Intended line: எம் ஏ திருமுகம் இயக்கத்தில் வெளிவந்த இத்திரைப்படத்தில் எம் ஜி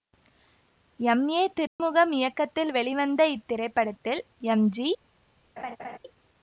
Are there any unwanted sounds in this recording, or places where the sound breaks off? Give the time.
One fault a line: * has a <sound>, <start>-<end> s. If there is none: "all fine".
* has a dropout, 1.7-1.8 s
* has a laugh, 5.6-6.0 s